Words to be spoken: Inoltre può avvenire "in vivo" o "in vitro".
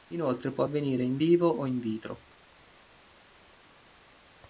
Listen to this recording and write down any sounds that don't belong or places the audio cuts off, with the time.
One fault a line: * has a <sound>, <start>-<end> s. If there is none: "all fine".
all fine